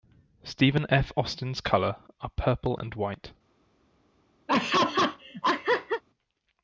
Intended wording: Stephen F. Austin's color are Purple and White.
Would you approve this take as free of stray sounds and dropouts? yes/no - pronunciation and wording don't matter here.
no